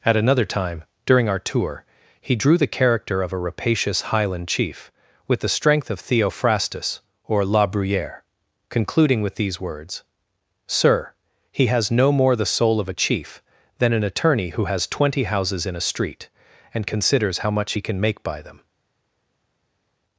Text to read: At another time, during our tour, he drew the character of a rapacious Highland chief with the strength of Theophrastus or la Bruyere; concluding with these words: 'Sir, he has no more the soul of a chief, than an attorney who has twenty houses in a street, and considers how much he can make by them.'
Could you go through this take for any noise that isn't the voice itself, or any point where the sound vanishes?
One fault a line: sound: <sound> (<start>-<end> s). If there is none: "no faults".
no faults